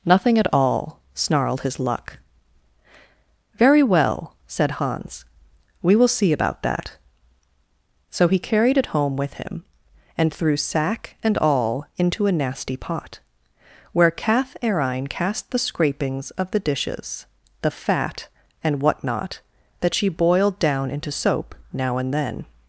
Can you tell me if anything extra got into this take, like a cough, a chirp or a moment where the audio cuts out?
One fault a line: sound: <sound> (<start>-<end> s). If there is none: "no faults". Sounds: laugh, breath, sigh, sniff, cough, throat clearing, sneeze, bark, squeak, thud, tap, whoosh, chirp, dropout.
no faults